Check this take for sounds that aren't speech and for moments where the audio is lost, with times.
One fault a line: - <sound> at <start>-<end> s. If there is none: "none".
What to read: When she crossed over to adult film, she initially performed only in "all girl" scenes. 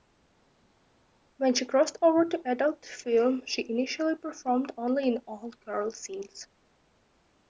none